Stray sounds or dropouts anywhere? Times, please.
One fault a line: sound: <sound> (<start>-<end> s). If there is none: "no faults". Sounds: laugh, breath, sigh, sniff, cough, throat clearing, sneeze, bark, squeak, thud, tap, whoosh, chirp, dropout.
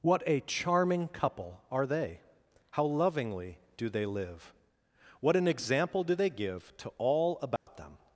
sound: dropout (7.6-7.7 s)